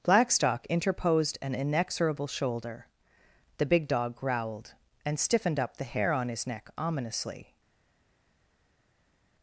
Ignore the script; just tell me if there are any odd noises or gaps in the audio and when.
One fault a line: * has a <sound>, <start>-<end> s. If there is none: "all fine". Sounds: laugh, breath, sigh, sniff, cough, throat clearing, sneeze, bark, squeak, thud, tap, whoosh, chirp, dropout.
all fine